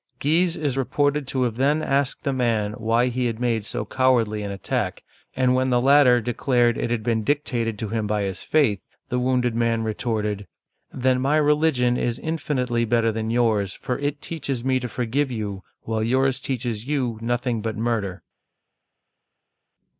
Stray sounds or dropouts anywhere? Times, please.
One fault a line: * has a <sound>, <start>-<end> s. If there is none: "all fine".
all fine